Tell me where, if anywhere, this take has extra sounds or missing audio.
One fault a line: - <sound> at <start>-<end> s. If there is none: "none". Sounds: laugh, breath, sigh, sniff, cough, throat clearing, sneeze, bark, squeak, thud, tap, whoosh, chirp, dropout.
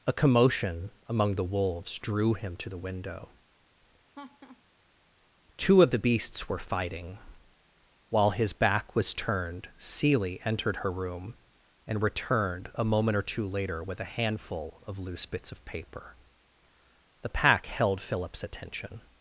- laugh at 4.1-4.6 s